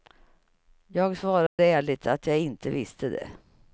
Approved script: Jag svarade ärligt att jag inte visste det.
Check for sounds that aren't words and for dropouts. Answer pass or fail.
fail